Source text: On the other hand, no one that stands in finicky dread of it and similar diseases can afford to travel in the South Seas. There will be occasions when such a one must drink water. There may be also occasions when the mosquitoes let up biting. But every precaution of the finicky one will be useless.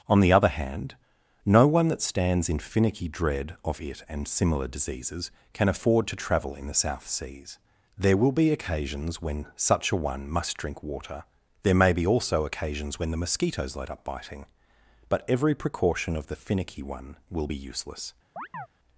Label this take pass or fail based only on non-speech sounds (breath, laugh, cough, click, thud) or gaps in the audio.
fail